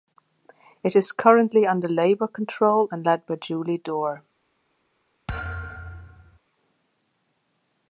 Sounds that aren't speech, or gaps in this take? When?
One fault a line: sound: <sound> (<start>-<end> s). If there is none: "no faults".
sound: thud (5.3-6.4 s)